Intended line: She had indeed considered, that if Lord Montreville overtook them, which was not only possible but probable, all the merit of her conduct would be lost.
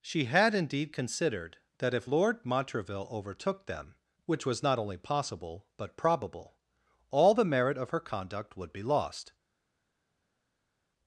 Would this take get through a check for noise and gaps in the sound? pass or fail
pass